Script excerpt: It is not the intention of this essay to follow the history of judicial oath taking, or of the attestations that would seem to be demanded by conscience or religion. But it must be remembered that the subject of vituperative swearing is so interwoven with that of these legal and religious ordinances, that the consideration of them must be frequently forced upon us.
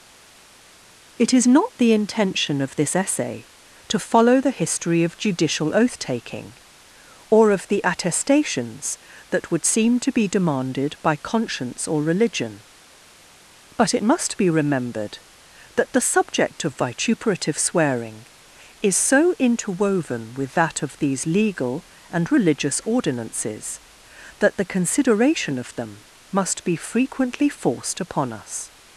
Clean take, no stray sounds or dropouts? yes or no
yes